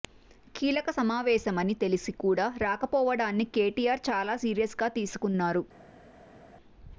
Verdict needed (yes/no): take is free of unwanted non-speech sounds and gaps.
yes